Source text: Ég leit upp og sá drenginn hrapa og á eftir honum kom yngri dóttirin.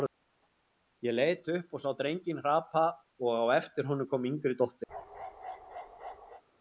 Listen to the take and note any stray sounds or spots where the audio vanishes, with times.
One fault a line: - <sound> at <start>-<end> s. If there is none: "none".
- bark at 4.9-6.4 s